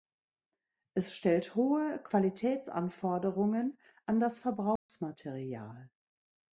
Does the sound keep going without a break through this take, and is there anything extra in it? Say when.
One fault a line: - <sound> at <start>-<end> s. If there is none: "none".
- dropout at 4.8-4.9 s